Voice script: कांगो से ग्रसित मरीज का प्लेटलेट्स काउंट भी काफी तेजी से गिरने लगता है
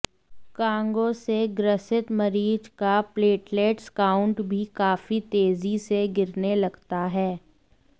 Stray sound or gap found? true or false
false